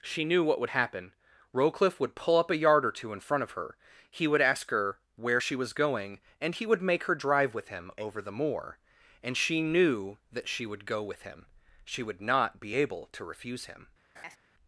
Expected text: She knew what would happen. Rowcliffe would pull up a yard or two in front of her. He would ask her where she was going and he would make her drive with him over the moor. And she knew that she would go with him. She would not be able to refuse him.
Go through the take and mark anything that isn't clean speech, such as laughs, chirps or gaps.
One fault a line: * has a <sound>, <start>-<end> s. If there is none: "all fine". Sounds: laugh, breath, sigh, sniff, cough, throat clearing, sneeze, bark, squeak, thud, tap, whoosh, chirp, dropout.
* has a laugh, 14.1-14.4 s